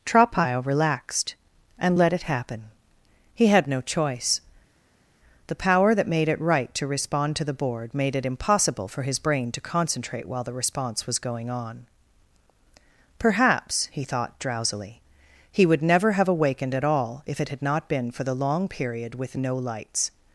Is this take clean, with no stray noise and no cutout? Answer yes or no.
yes